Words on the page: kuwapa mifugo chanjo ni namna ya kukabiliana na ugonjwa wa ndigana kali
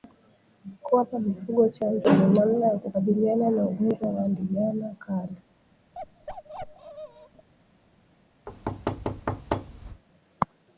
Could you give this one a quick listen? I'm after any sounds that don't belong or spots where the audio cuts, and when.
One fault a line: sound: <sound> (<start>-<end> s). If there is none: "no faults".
sound: bark (5.9-7.5 s)
sound: thud (8.5-10.0 s)